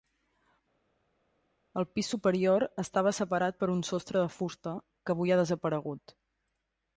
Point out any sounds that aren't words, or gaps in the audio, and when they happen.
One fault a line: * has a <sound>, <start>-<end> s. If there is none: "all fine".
all fine